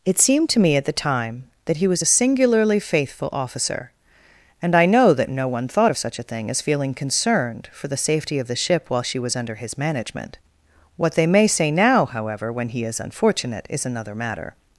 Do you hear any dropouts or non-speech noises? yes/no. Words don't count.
no